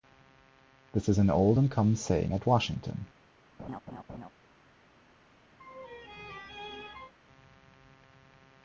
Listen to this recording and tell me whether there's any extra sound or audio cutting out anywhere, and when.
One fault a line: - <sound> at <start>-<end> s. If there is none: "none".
- laugh at 3.6-4.3 s
- laugh at 5.6-7.1 s